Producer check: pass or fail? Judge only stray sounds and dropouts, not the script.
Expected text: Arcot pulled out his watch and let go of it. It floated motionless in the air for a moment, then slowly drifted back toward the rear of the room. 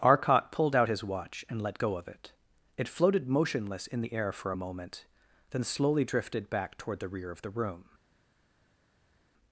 pass